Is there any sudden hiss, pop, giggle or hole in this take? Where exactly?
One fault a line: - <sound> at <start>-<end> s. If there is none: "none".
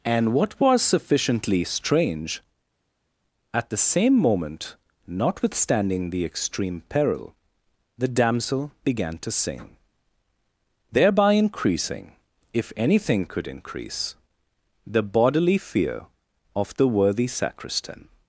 none